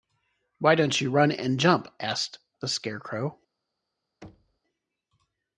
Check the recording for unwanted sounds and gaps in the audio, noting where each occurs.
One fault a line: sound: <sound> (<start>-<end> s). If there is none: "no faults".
sound: thud (4.2-4.6 s)